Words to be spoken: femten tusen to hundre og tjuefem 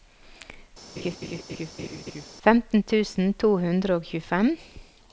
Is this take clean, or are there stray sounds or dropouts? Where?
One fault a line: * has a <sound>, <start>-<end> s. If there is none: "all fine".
* has a laugh, 1.0-2.3 s